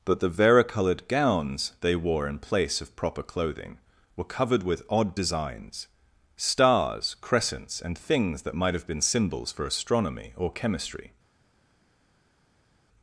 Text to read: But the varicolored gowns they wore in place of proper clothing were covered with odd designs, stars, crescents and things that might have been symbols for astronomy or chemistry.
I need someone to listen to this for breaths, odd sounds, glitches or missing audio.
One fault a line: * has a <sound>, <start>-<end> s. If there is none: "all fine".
all fine